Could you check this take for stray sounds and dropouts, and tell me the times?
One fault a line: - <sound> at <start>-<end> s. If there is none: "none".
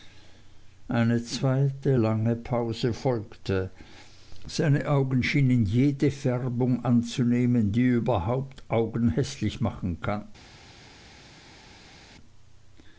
none